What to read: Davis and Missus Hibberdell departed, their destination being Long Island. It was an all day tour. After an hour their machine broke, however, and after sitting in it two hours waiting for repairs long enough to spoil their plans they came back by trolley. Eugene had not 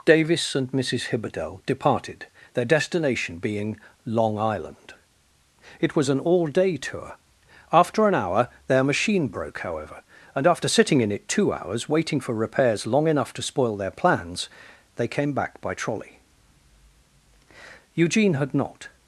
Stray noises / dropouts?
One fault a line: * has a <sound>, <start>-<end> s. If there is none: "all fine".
all fine